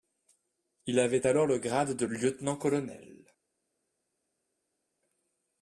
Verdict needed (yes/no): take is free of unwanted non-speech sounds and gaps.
yes